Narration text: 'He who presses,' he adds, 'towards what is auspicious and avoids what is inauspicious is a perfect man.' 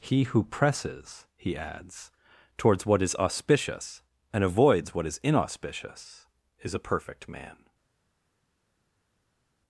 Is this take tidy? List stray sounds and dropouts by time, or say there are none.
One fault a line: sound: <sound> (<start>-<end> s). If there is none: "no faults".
no faults